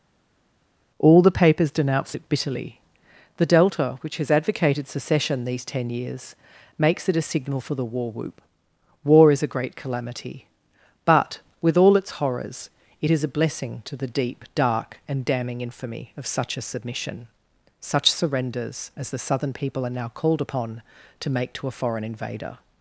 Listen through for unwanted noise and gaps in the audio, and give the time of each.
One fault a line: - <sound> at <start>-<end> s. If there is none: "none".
none